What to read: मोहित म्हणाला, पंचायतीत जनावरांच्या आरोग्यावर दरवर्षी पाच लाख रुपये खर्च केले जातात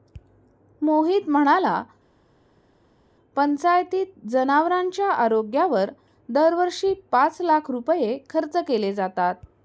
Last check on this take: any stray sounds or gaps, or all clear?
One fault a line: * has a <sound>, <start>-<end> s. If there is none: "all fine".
all fine